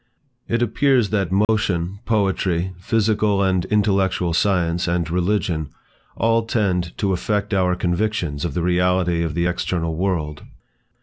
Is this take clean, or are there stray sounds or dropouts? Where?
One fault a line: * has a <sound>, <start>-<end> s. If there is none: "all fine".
* has a dropout, 1.4-1.5 s